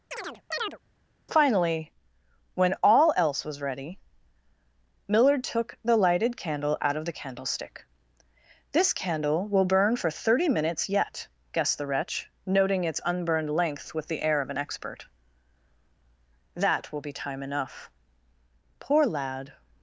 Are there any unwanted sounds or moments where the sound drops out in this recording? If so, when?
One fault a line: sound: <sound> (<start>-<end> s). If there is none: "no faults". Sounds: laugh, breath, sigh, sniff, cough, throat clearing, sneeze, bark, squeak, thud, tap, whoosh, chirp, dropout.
sound: chirp (0.1-0.8 s)